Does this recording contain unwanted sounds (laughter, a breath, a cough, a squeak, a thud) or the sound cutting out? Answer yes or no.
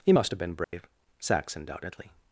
yes